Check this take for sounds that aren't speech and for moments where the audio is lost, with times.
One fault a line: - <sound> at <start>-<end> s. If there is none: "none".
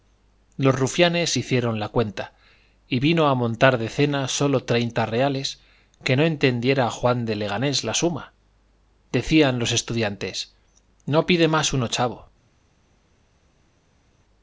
none